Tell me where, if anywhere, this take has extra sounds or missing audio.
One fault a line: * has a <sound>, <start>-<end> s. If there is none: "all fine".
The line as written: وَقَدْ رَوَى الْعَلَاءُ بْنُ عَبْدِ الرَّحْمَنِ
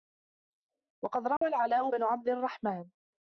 * has a dropout, 1.4-1.4 s